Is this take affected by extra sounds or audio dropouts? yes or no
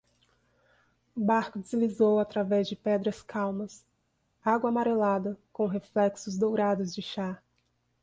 no